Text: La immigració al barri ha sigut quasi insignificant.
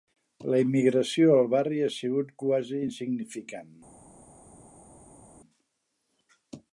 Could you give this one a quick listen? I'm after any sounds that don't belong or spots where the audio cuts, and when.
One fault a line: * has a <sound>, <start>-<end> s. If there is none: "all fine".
all fine